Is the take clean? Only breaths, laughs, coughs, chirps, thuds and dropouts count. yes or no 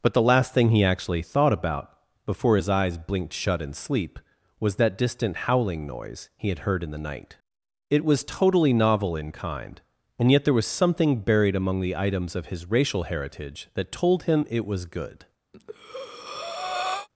no